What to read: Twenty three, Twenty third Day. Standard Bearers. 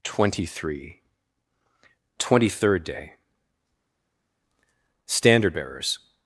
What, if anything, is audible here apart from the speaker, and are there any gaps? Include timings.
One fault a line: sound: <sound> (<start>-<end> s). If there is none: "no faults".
no faults